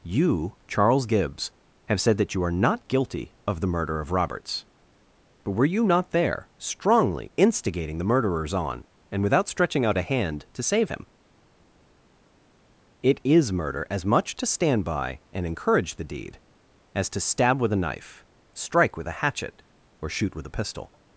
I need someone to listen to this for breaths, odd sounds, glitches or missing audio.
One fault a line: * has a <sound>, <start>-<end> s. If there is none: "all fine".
all fine